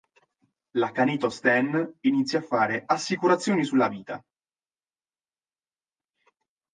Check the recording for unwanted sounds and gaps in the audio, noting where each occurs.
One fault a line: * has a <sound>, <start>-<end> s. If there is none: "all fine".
all fine